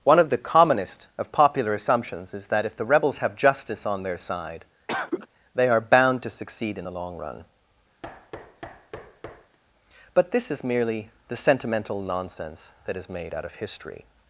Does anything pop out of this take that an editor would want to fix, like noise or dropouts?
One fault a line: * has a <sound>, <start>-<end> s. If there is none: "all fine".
* has a cough, 4.9-5.3 s
* has a thud, 8.0-9.6 s